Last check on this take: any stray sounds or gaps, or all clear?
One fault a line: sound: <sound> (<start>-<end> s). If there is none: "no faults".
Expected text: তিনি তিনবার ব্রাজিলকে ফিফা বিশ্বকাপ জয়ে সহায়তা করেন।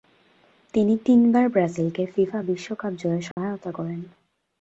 sound: dropout (3.3-3.4 s)